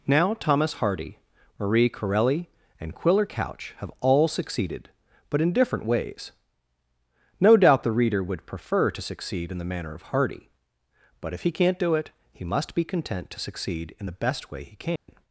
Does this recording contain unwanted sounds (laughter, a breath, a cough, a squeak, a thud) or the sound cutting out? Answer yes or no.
yes